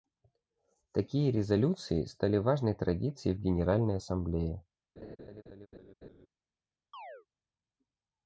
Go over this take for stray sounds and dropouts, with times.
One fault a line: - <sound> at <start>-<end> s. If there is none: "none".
- laugh at 5.0-6.3 s
- chirp at 6.9-7.3 s